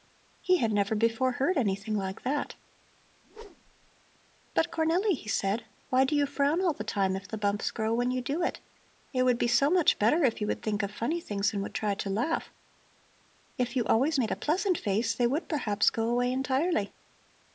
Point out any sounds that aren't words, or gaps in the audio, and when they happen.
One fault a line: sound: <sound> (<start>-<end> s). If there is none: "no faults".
sound: whoosh (3.2-3.9 s)